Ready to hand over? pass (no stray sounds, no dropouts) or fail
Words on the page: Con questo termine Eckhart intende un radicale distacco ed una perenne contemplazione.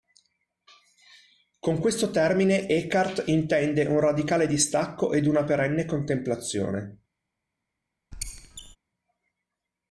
fail